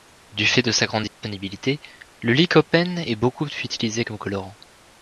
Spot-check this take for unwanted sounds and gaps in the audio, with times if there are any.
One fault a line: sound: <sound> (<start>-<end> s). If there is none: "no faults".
sound: dropout (1.1-1.2 s)